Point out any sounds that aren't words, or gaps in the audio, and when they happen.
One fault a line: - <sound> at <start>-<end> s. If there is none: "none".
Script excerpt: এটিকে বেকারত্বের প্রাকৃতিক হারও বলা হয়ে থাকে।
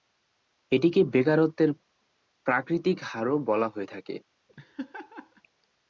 - laugh at 4.5-5.4 s